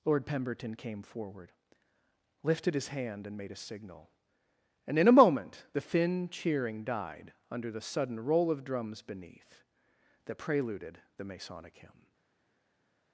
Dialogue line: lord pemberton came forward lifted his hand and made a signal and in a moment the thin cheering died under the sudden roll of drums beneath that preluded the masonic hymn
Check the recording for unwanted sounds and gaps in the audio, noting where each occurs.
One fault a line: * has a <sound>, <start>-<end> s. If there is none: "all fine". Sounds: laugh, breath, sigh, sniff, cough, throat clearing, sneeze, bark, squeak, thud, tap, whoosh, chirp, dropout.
all fine